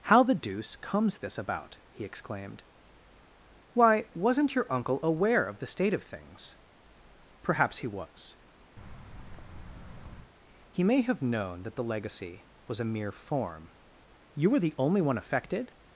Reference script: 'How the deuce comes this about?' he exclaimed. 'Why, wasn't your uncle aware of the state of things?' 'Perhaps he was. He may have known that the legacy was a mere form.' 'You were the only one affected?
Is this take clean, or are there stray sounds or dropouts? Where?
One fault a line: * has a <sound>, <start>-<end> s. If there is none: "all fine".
* has a thud, 8.8-10.3 s